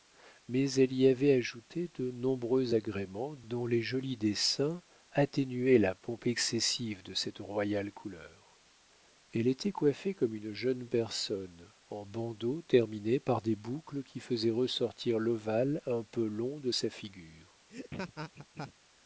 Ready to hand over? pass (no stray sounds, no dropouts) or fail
fail